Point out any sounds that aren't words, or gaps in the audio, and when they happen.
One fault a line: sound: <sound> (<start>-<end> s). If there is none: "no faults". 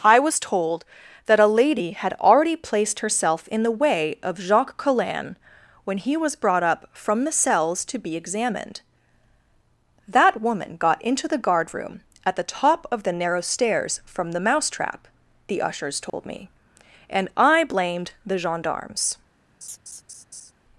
sound: dropout (16.1-16.1 s)
sound: laugh (19.6-20.5 s)